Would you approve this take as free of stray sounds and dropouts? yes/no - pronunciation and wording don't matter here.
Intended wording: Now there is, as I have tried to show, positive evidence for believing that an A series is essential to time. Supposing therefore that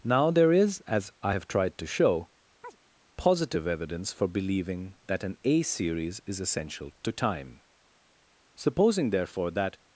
no